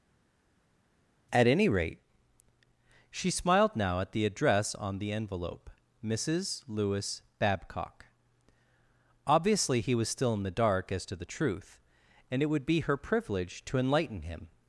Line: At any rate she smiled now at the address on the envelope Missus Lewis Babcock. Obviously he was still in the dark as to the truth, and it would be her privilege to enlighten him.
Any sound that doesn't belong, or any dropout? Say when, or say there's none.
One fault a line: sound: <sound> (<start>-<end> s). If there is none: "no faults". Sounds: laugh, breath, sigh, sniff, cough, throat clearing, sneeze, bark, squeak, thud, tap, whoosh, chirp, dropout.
no faults